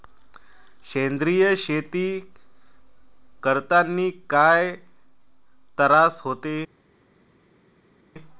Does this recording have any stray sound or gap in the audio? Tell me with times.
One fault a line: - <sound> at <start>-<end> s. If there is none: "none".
none